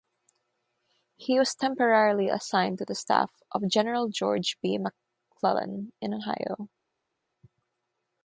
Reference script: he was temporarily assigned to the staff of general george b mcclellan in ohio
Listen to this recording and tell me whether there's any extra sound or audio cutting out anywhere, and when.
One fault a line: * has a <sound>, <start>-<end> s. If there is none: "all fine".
all fine